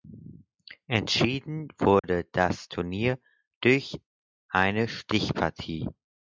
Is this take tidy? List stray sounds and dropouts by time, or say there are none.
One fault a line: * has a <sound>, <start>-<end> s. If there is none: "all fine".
* has a dropout, 2.0-2.0 s